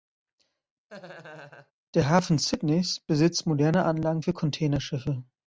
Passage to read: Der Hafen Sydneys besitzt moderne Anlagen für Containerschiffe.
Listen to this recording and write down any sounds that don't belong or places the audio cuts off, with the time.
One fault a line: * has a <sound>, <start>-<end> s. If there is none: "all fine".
* has a laugh, 0.9-1.7 s